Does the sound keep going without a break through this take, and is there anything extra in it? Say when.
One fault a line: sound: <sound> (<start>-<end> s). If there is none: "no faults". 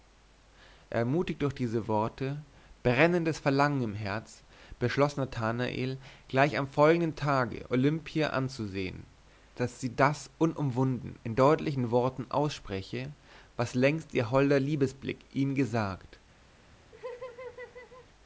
sound: laugh (16.9-18.1 s)